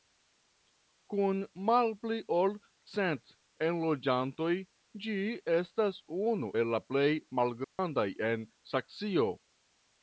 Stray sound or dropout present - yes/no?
yes